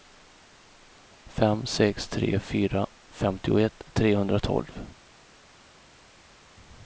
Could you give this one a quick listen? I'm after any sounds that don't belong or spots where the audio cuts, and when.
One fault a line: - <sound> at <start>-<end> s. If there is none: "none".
none